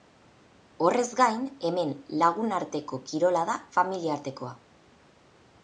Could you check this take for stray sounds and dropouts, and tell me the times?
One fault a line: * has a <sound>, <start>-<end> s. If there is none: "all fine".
all fine